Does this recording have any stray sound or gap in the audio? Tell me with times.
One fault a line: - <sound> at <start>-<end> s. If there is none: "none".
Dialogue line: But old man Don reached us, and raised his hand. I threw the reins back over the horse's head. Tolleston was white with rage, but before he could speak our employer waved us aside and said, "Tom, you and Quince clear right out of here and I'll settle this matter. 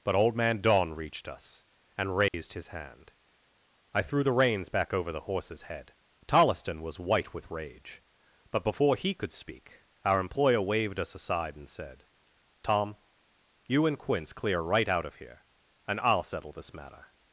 - dropout at 2.3-2.3 s